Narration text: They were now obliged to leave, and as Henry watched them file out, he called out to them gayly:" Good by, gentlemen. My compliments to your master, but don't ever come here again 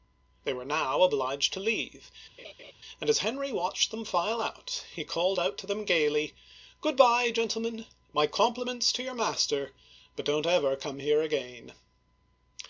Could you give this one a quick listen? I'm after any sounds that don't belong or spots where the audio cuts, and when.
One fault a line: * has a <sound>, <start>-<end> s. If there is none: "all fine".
* has a laugh, 2.4-2.7 s